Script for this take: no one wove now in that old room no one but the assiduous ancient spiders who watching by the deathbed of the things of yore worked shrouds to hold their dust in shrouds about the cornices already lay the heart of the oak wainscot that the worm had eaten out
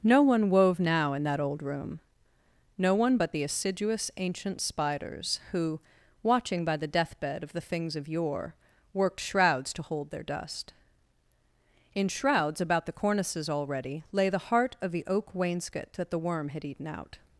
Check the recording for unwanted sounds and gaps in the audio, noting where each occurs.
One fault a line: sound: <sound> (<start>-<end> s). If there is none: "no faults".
no faults